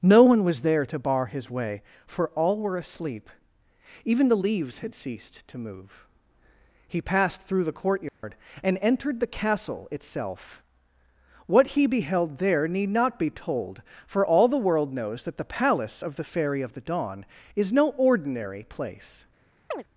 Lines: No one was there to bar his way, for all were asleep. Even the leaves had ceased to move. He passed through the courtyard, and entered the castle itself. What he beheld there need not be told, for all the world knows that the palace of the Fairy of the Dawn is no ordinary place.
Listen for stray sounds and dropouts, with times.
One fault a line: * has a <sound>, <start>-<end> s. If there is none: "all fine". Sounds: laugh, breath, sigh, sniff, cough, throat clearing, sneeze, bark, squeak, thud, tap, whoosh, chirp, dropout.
* has a dropout, 8.1-8.2 s
* has a chirp, 19.7-19.8 s